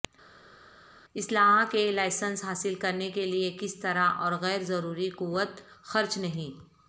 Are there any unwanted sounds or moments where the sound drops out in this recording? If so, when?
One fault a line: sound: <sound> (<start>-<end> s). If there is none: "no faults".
no faults